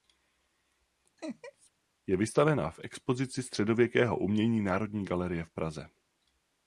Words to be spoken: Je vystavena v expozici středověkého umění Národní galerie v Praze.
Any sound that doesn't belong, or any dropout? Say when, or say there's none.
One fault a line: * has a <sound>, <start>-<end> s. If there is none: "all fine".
* has a laugh, 1.2-1.7 s